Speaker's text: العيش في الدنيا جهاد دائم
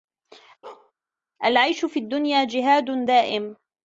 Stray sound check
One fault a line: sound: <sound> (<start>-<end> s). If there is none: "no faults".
sound: bark (0.6-0.9 s)